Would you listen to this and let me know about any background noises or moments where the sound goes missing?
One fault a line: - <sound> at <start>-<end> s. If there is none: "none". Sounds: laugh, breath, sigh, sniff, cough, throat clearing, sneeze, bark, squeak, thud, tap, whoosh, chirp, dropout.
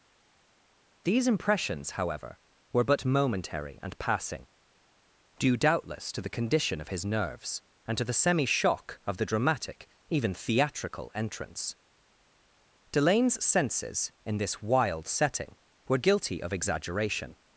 none